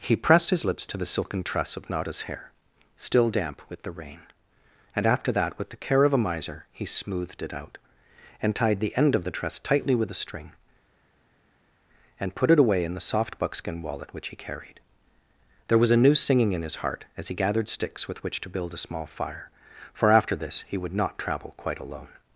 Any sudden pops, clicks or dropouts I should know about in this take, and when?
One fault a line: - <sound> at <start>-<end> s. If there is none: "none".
none